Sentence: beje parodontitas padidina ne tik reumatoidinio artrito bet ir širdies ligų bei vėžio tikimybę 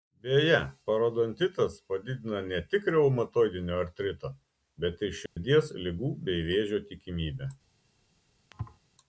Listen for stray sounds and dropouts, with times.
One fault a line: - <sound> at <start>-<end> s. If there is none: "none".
- dropout at 5.3-5.4 s
- thud at 8.5-8.8 s